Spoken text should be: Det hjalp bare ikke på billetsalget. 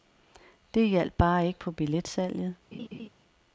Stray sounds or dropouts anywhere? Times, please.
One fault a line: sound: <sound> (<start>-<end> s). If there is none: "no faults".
sound: laugh (2.7-3.1 s)